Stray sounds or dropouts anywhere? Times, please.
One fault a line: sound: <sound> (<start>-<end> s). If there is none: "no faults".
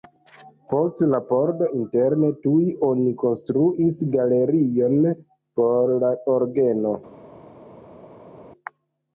no faults